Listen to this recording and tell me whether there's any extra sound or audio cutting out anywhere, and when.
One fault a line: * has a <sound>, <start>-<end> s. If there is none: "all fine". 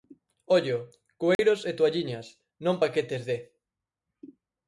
* has a dropout, 1.3-1.4 s